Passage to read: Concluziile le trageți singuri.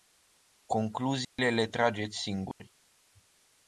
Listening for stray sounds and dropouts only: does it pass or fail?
fail